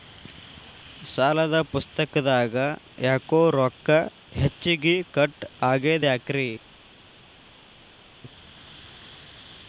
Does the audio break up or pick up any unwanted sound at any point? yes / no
no